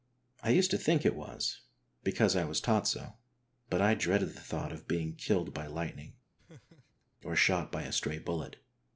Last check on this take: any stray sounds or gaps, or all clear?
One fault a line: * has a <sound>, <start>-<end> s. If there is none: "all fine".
* has a laugh, 6.4-7.1 s